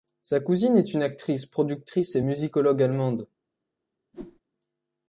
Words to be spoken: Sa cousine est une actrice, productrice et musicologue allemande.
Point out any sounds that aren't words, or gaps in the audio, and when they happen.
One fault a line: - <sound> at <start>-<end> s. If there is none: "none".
- whoosh at 4.1-4.4 s